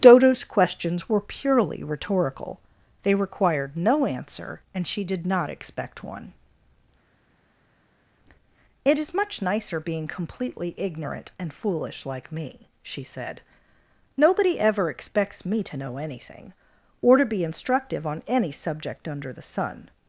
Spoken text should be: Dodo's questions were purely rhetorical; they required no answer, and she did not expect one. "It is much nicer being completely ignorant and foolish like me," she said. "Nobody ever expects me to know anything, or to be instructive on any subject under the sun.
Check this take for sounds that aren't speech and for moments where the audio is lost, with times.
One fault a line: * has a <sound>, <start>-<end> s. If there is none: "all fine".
all fine